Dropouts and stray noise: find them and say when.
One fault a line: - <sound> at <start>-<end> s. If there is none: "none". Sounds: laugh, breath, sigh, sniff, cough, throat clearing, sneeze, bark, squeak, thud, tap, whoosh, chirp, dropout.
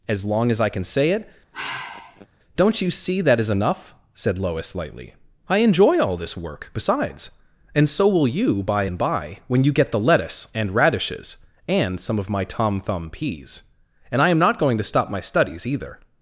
- sigh at 1.5-2.3 s